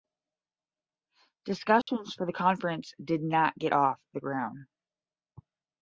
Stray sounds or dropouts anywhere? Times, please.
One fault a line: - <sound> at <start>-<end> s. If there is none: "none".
- dropout at 1.8-1.9 s